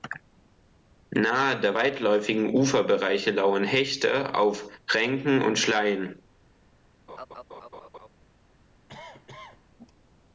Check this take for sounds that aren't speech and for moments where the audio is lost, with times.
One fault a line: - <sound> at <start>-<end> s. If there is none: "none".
- laugh at 7.1-8.1 s
- cough at 8.9-9.7 s